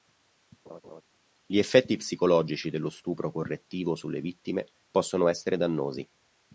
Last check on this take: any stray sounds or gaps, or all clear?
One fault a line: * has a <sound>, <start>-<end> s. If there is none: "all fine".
* has a laugh, 0.7-1.0 s